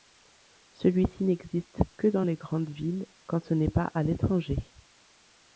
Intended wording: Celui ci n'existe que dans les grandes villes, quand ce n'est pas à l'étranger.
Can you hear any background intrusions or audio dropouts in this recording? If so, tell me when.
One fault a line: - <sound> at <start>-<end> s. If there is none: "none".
none